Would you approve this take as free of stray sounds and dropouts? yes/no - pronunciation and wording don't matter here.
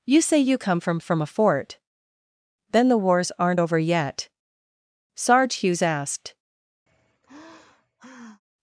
no